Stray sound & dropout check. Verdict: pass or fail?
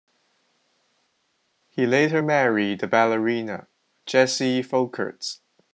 pass